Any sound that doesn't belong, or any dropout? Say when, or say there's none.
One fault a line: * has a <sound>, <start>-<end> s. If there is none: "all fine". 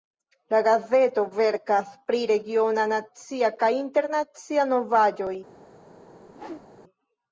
* has a whoosh, 6.3-6.7 s